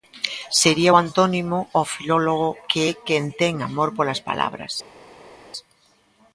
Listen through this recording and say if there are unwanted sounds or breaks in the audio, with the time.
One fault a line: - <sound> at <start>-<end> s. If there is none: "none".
none